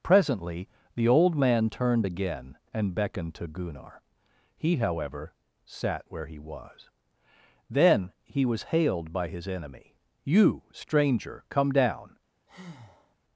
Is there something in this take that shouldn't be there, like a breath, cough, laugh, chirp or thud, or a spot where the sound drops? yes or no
yes